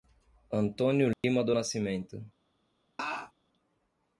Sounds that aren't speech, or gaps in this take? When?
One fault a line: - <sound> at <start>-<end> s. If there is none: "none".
- dropout at 1.1-1.2 s
- laugh at 3.0-3.3 s